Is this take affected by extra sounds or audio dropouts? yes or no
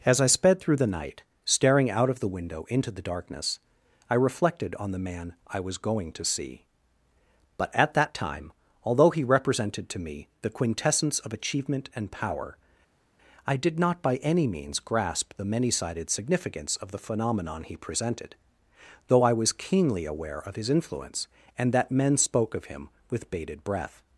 no